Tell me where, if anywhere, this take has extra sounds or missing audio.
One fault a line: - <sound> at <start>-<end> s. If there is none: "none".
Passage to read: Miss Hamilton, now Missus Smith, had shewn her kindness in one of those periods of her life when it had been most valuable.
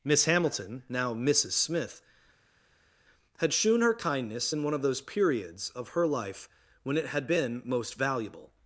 none